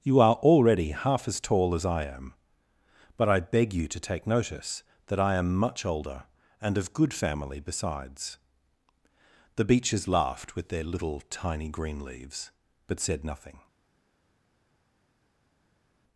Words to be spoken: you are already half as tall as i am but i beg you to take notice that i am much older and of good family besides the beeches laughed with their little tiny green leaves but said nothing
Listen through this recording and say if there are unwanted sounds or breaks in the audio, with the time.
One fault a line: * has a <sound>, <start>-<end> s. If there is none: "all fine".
all fine